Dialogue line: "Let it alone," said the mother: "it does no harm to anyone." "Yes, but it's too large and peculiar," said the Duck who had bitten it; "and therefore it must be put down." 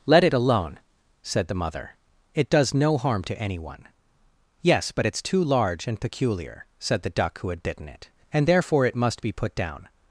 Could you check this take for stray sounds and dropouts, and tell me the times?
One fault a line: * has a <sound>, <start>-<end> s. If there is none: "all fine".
all fine